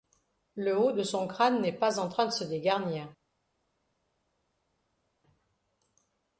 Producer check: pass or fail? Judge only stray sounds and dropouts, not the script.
pass